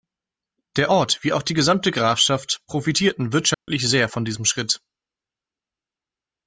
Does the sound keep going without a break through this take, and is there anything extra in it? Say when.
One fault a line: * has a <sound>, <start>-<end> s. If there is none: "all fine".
* has a dropout, 3.5-3.7 s